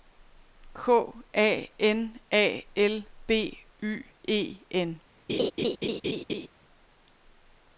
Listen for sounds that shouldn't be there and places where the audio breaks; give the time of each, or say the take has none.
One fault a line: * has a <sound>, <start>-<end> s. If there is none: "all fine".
* has a laugh, 5.3-6.5 s